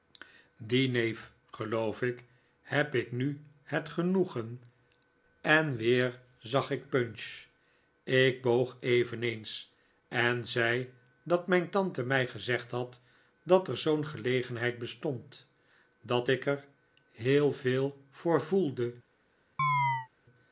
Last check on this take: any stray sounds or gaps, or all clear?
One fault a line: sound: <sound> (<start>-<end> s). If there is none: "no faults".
sound: chirp (19.6-20.1 s)